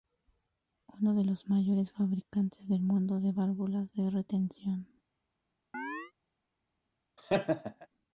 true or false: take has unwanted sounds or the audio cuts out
true